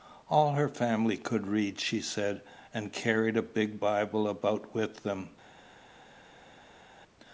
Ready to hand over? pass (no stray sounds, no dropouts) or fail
pass